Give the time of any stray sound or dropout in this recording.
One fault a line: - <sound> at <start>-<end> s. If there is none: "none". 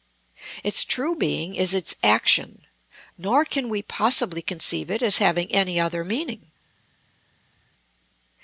none